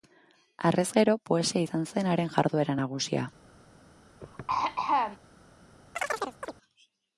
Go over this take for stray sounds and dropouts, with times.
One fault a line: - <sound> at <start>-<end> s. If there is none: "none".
- throat clearing at 4.2-5.2 s
- chirp at 6.0-6.5 s